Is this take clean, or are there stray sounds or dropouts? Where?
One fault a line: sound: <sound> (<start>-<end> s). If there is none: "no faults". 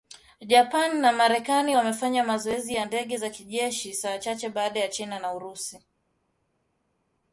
no faults